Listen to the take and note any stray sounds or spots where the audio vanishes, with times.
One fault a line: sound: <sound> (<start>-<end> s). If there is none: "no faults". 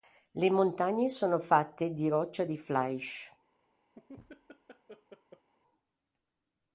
sound: laugh (3.9-5.5 s)